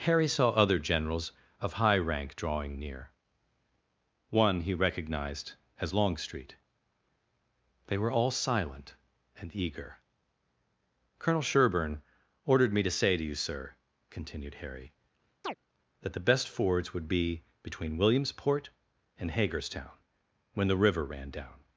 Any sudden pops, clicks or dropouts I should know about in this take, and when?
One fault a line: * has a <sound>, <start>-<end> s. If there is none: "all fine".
* has a chirp, 15.4-15.6 s